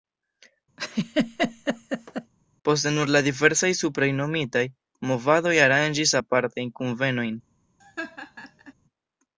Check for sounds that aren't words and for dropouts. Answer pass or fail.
fail